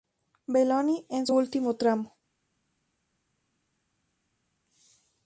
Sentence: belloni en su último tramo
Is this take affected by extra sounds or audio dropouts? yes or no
no